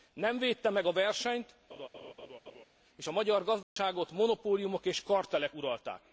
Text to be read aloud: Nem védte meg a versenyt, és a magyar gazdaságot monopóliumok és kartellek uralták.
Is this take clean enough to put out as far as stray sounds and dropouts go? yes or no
no